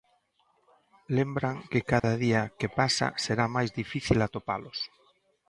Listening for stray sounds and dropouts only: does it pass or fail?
fail